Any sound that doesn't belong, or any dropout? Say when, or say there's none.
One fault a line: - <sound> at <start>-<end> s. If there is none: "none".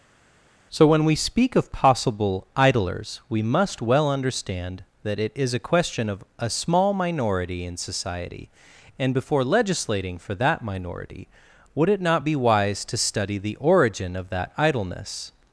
none